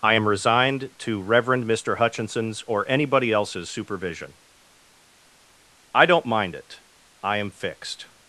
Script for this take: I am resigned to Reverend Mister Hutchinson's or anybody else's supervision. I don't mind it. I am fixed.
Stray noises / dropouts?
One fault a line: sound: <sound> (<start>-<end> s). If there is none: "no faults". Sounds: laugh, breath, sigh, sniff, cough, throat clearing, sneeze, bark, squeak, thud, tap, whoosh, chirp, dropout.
no faults